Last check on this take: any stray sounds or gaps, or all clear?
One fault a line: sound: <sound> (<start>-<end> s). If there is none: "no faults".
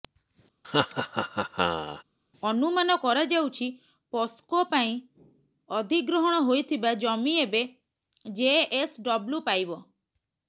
sound: laugh (0.6-2.0 s)